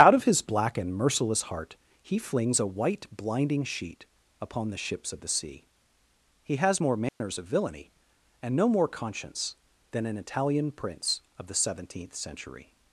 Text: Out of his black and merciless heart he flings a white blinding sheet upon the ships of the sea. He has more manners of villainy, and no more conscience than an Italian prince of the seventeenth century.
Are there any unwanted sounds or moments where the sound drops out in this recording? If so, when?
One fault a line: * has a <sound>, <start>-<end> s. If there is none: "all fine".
* has a dropout, 7.1-7.2 s